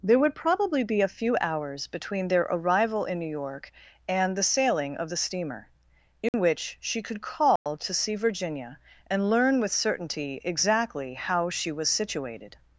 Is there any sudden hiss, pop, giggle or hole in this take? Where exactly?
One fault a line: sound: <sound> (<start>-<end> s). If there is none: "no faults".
sound: dropout (6.3-6.3 s)
sound: dropout (7.6-7.7 s)